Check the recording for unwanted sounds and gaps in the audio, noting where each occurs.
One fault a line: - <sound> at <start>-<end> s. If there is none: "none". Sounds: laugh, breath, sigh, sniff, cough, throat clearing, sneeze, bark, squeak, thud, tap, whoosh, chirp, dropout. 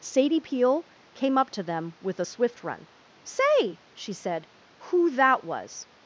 none